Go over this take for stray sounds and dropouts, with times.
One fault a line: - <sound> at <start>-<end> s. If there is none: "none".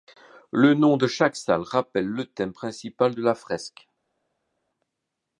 none